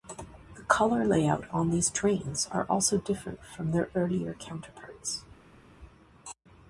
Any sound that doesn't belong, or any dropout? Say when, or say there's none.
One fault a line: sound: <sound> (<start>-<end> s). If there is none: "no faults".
no faults